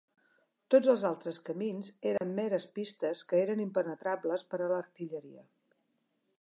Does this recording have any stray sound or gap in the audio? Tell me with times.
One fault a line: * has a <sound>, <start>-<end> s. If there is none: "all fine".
* has a dropout, 2.2-2.2 s